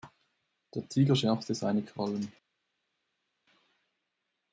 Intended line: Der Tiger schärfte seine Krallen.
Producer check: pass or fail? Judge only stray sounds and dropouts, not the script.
pass